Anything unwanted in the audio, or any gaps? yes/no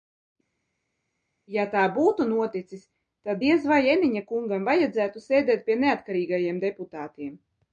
no